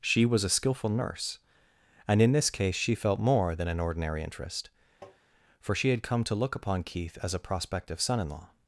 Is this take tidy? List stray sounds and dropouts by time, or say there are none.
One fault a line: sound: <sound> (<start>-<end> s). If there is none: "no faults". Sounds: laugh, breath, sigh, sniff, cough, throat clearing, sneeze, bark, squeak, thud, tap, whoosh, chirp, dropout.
sound: tap (5.0-5.2 s)